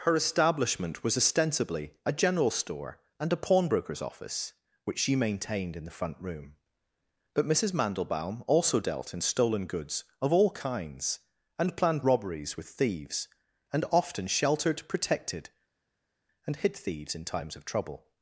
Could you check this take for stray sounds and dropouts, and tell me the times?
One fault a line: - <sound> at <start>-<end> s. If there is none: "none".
none